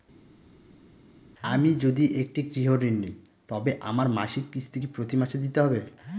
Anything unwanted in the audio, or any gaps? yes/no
no